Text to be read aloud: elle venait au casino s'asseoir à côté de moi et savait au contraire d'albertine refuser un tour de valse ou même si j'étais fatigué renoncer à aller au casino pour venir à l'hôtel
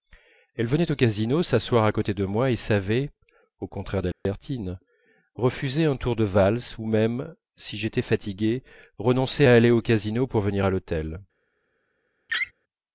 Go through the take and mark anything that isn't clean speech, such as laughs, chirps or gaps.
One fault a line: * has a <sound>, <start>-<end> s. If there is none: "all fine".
* has a dropout, 4.1-4.3 s
* has a laugh, 12.3-12.5 s